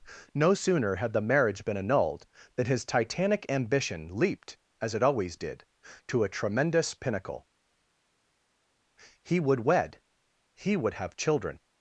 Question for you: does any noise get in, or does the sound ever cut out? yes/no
no